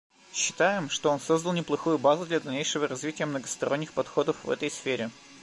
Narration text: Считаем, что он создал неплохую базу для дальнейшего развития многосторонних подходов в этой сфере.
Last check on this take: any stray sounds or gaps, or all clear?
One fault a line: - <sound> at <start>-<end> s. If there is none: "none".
none